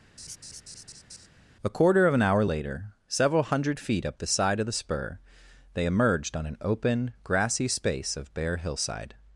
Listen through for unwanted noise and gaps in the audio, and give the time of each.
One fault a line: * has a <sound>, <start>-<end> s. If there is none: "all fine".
* has a laugh, 0.2-1.3 s